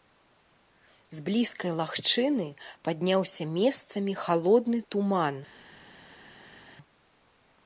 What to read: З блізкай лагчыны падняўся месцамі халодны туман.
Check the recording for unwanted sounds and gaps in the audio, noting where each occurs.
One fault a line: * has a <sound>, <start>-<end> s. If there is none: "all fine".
all fine